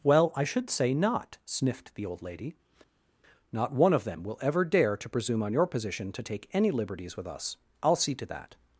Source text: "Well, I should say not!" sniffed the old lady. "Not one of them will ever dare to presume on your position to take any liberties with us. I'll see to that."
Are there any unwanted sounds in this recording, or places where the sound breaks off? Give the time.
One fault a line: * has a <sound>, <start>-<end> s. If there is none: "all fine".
all fine